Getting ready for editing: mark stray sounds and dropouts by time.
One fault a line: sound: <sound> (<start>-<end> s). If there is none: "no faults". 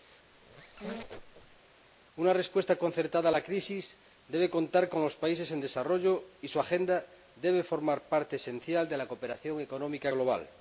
sound: squeak (0.3-1.6 s)